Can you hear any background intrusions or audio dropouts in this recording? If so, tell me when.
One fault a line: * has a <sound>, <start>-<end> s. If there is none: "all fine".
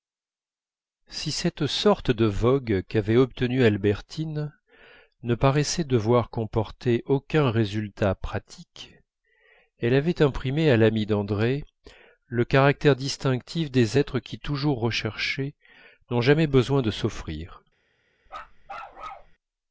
* has a bark, 18.3-19.3 s